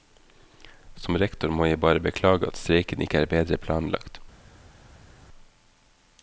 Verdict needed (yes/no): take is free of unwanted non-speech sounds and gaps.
yes